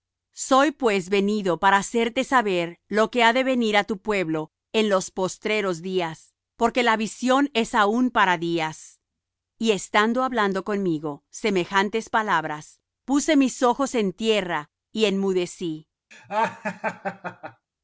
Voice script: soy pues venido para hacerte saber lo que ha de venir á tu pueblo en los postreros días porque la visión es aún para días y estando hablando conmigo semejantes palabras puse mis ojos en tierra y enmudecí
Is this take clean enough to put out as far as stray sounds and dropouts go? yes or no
no